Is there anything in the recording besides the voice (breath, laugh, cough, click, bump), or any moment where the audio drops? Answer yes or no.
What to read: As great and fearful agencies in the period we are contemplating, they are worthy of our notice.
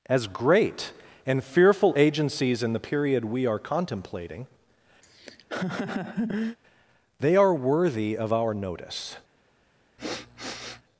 yes